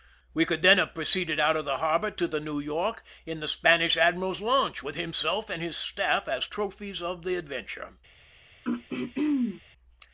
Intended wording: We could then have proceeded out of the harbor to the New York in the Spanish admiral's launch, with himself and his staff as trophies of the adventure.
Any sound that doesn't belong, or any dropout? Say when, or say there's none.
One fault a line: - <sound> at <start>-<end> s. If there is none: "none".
- throat clearing at 8.6-9.6 s